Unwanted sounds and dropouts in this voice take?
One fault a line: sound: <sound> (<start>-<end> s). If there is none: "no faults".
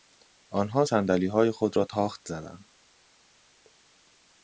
no faults